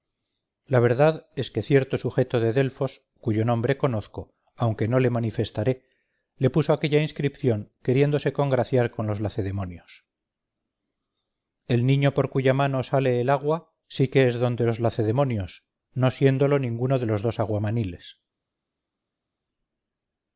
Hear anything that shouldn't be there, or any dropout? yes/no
no